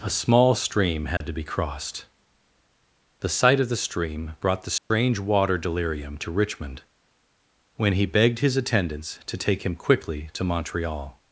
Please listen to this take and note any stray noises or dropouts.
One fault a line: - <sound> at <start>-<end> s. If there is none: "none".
- dropout at 1.2-1.2 s
- dropout at 4.8-4.9 s